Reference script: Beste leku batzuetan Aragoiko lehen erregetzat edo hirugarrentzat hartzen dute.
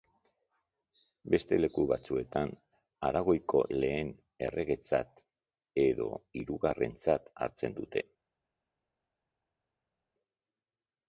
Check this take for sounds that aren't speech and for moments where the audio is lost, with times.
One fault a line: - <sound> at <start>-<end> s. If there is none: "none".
none